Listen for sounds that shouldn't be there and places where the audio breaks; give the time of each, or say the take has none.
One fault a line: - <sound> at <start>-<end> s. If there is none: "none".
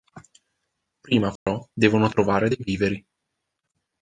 - dropout at 1.4-1.5 s